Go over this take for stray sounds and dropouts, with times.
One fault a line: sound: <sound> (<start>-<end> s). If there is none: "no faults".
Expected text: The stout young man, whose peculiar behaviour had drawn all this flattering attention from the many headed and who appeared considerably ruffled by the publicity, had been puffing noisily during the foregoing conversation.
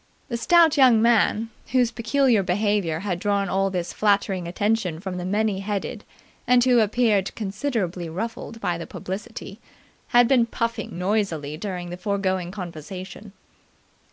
no faults